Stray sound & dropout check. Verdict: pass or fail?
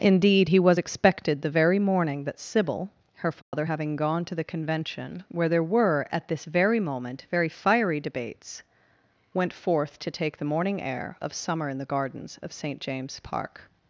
fail